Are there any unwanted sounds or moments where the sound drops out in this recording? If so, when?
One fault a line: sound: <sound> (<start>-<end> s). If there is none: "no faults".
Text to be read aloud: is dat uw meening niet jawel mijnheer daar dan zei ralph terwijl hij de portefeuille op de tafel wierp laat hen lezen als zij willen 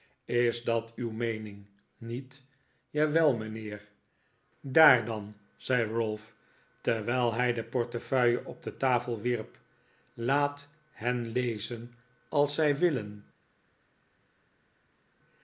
no faults